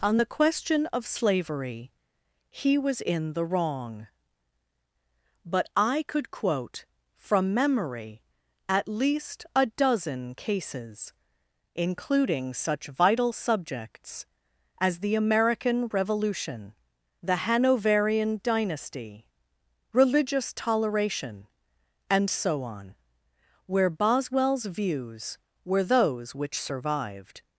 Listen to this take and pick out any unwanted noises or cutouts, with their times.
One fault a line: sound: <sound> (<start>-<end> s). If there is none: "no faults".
no faults